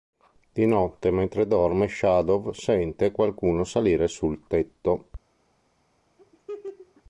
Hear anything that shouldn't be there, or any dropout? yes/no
yes